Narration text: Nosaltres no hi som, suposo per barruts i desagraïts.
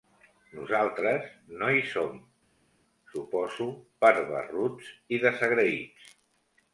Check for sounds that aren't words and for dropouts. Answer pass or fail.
pass